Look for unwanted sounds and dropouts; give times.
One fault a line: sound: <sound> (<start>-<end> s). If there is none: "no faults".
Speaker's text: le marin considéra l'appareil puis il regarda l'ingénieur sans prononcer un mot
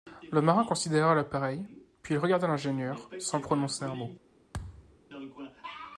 sound: thud (4.5-5.0 s)